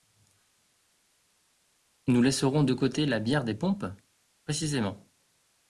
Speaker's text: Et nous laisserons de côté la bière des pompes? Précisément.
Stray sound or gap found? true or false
false